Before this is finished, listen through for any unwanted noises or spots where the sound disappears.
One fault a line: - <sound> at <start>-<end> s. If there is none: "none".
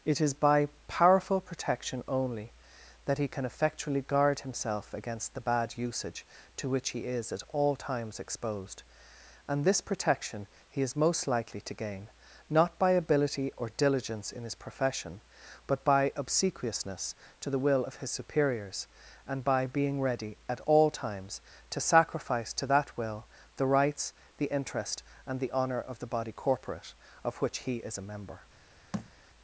- thud at 28.9-29.1 s